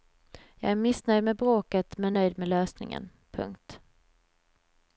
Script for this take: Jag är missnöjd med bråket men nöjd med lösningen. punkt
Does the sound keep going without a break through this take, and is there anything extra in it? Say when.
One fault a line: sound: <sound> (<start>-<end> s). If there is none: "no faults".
no faults